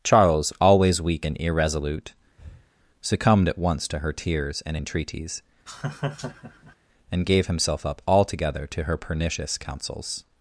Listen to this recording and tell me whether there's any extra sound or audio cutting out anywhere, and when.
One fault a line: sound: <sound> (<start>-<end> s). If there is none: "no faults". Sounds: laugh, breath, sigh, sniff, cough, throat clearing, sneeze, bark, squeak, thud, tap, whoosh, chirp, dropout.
sound: breath (2.4-2.7 s)
sound: laugh (5.7-6.8 s)